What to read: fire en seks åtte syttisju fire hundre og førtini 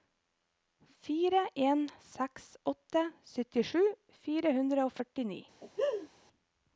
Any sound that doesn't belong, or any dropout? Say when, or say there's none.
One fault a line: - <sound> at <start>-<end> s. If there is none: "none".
- laugh at 5.6-6.1 s